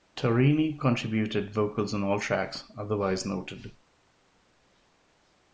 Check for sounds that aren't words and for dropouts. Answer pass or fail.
pass